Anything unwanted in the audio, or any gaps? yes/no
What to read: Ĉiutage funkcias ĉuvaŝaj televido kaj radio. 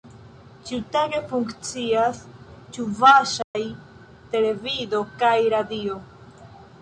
yes